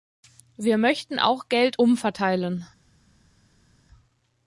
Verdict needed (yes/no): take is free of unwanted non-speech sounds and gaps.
yes